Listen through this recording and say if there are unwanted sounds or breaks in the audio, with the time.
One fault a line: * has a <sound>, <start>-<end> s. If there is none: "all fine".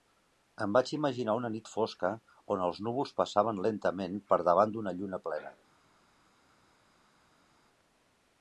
all fine